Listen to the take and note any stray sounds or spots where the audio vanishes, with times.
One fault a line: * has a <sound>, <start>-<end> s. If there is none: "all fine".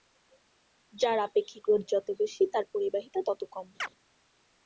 * has a chirp, 3.8-3.9 s